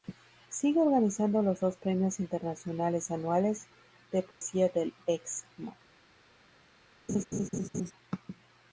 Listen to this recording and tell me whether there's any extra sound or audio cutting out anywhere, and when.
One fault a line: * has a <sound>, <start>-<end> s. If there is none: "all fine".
* has a dropout, 4.3-4.4 s
* has a laugh, 7.1-7.9 s